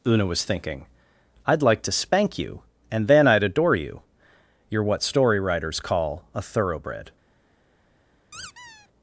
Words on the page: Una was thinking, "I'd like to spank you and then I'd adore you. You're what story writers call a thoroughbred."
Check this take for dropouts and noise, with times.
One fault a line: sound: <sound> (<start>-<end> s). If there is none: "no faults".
sound: squeak (8.3-8.9 s)